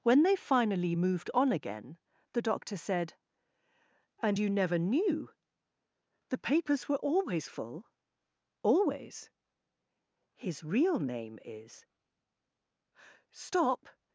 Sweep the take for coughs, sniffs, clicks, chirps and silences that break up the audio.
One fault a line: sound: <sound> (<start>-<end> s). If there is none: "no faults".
no faults